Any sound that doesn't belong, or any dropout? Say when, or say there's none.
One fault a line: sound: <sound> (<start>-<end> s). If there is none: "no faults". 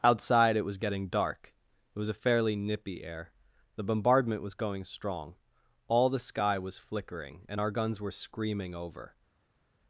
no faults